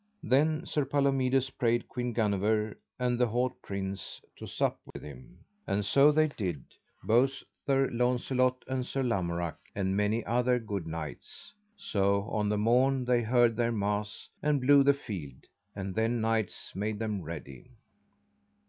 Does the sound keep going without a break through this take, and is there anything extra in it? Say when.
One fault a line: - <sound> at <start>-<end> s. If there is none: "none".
- dropout at 4.9-5.0 s